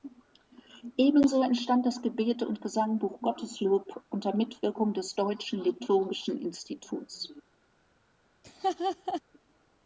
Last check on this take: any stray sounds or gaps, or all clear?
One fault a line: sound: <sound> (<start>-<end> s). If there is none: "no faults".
sound: laugh (8.4-9.2 s)